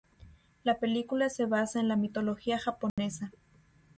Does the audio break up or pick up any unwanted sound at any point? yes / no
yes